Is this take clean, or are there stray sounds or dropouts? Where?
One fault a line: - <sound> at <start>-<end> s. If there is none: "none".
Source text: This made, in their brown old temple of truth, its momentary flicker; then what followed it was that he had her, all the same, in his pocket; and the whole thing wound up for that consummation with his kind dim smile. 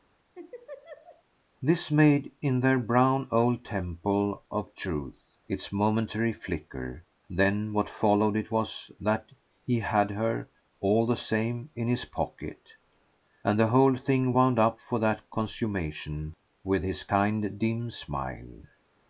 - laugh at 0.3-1.2 s